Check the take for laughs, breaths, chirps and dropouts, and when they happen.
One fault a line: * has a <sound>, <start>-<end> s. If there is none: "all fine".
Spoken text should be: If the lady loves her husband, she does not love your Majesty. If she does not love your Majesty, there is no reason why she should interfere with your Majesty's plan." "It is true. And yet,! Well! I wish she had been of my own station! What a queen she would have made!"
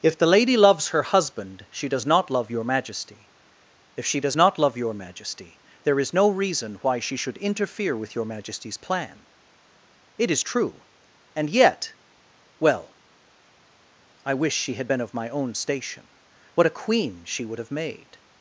all fine